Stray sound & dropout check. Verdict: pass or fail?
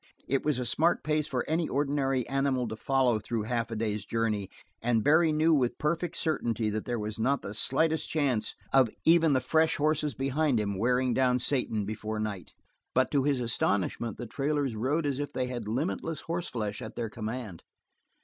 pass